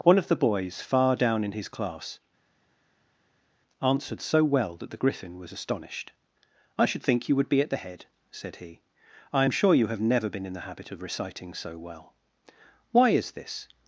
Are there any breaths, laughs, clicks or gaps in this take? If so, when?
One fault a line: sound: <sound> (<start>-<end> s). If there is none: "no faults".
no faults